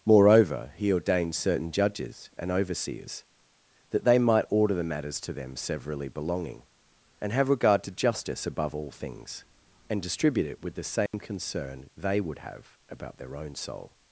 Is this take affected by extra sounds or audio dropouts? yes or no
yes